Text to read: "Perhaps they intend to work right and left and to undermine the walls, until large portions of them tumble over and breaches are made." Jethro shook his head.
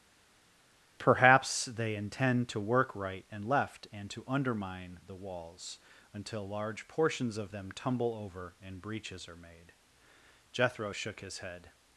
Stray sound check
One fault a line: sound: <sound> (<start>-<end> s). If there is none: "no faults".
no faults